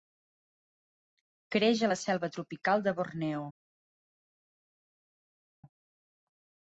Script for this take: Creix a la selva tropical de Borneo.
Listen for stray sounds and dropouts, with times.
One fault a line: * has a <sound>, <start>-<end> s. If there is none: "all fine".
all fine